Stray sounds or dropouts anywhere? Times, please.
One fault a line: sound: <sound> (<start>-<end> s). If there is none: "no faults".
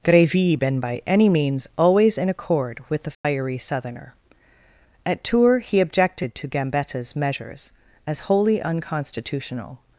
sound: dropout (3.1-3.2 s)